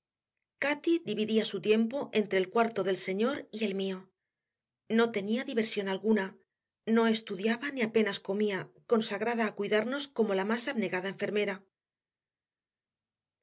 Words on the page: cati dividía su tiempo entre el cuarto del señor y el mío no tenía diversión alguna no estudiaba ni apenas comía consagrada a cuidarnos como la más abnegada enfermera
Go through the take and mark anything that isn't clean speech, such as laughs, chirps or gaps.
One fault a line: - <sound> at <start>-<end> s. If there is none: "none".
none